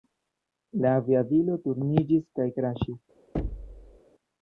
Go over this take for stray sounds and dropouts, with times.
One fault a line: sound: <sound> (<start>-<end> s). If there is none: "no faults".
sound: thud (3.3-4.0 s)